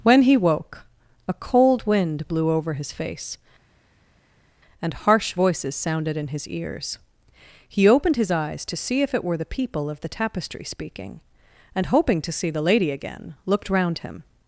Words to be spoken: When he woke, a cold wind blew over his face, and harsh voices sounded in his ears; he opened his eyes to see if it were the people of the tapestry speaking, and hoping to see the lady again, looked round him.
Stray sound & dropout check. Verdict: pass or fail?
pass